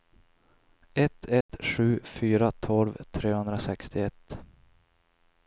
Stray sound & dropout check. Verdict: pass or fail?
fail